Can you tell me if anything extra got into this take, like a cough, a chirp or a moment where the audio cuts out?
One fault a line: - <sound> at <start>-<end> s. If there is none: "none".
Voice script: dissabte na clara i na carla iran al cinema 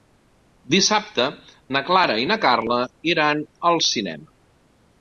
none